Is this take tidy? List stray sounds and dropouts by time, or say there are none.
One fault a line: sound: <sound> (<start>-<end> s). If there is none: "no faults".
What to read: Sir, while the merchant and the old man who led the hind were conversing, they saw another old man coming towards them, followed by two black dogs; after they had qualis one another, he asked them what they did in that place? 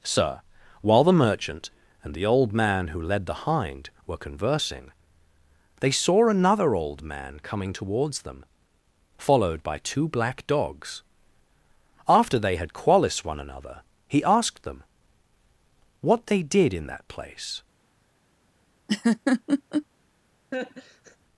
sound: laugh (18.9-19.9 s)
sound: laugh (20.5-21.2 s)